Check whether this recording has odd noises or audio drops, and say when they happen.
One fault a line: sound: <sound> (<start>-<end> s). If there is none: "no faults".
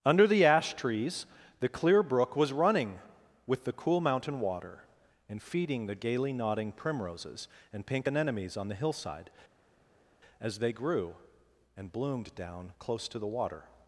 no faults